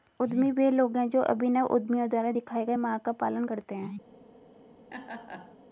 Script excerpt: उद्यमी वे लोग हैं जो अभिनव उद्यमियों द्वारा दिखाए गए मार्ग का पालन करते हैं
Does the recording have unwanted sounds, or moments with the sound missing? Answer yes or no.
yes